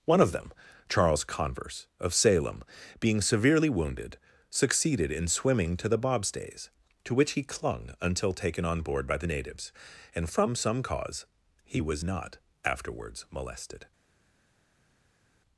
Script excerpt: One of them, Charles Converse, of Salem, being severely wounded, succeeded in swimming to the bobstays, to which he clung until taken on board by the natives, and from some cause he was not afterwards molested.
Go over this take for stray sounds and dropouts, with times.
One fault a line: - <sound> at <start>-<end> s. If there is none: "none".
none